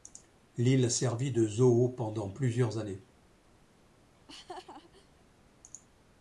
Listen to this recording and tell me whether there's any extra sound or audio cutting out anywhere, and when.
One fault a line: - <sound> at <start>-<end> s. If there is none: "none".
- laugh at 4.1-5.2 s